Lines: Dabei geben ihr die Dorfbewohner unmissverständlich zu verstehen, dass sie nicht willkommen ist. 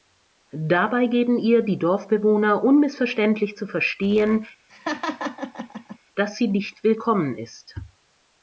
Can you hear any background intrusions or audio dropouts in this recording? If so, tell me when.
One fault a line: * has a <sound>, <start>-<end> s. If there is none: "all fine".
* has a laugh, 4.7-6.0 s